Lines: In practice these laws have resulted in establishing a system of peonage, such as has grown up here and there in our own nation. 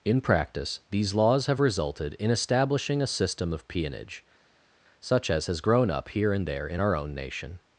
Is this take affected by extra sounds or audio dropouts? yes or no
no